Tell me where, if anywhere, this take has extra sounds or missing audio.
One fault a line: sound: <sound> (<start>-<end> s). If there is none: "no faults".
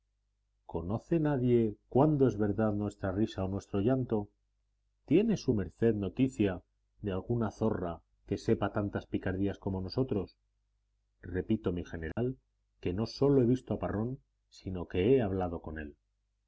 sound: dropout (12.1-12.2 s)